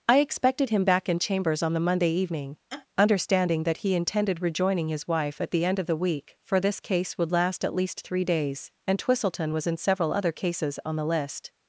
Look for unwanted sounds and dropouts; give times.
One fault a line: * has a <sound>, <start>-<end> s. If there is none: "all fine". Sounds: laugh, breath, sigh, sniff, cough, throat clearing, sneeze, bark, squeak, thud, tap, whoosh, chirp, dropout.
* has a laugh, 2.7-2.9 s